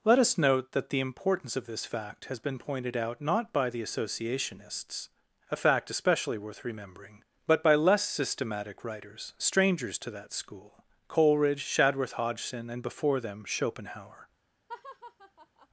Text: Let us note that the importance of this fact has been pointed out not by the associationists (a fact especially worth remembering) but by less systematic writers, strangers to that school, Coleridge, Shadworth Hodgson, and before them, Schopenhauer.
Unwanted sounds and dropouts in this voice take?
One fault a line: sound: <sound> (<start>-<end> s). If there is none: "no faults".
sound: laugh (14.7-15.7 s)